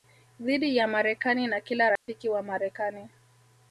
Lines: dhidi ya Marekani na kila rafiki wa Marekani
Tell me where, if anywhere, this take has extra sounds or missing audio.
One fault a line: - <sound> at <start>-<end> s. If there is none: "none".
- dropout at 2.0-2.1 s